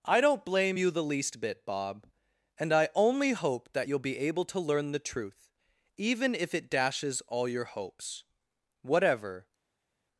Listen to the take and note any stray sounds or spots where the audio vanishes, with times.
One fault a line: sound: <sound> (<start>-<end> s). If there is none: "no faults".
no faults